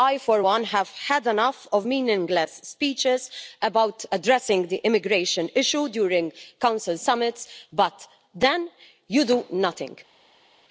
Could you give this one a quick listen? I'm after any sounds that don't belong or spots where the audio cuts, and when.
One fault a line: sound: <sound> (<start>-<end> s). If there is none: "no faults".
no faults